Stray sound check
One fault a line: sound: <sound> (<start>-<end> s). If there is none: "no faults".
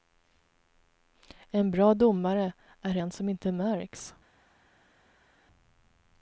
no faults